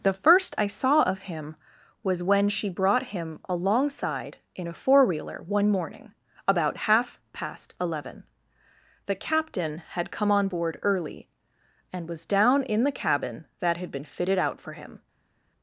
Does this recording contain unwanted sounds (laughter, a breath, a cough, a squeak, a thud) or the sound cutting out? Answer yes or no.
no